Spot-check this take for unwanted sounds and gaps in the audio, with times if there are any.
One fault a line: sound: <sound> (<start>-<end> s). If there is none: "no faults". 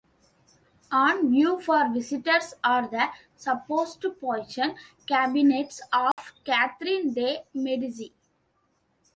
sound: dropout (6.1-6.2 s)